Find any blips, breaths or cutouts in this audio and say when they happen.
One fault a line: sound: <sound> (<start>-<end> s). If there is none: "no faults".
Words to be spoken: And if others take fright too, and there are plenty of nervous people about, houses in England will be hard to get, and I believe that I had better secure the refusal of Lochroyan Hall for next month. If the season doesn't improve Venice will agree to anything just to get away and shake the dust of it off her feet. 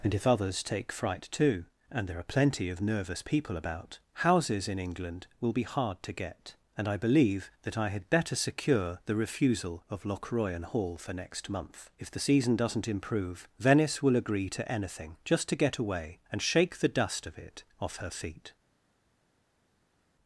no faults